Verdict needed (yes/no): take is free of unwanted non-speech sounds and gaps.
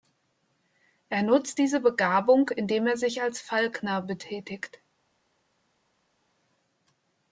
yes